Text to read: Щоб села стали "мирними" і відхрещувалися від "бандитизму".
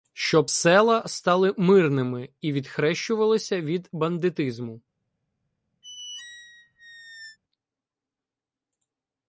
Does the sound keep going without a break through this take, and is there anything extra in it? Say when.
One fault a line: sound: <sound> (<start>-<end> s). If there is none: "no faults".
sound: squeak (5.8-7.4 s)